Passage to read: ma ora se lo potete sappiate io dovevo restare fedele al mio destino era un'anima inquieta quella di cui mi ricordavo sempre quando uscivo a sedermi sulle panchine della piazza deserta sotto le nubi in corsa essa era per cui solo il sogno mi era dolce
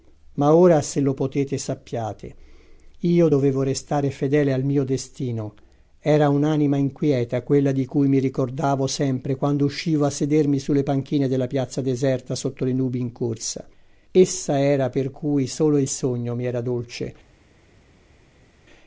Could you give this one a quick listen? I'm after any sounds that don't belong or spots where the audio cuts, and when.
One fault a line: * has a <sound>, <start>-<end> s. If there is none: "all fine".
all fine